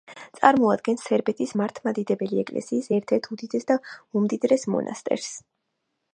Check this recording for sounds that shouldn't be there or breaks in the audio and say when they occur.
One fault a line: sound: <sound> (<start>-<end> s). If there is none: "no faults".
no faults